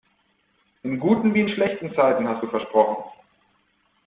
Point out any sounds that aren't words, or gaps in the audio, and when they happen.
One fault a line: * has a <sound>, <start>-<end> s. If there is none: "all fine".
all fine